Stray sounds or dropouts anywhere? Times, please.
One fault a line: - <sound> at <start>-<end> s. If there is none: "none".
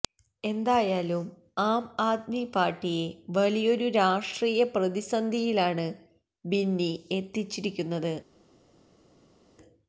none